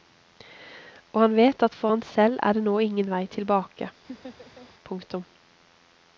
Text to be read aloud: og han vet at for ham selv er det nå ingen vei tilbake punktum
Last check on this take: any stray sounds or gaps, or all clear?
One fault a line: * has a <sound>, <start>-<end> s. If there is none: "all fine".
* has a laugh, 4.1-4.7 s